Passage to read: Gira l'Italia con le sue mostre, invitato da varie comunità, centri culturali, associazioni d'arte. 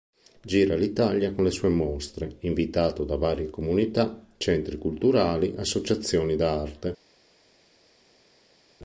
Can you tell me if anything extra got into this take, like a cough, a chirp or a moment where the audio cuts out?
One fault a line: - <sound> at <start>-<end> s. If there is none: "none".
none